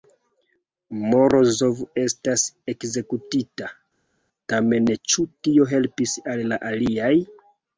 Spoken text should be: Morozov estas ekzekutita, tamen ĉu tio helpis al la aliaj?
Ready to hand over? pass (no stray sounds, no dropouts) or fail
pass